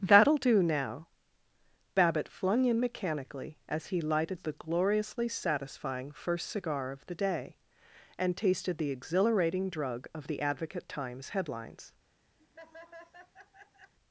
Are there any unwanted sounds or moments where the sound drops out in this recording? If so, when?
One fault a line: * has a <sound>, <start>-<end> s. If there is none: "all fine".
* has a laugh, 12.4-13.9 s